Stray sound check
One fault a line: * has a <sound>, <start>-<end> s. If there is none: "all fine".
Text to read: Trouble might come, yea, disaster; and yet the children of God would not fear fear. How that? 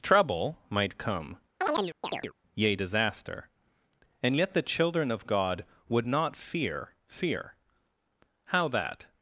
* has a chirp, 1.6-2.3 s